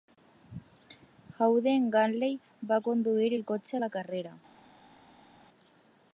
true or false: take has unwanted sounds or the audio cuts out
false